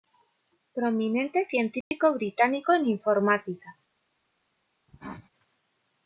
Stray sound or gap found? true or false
true